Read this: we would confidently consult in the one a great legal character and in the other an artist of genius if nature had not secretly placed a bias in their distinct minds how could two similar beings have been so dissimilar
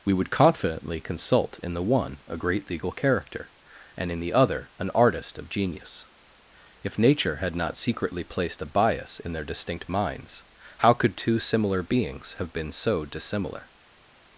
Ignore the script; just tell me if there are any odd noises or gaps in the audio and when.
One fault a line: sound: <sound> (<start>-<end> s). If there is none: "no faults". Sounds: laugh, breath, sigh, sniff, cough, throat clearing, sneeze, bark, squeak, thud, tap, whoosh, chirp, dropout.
no faults